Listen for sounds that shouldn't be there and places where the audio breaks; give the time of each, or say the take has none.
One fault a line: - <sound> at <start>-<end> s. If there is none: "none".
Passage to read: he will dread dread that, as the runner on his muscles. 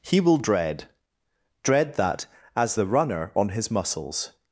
none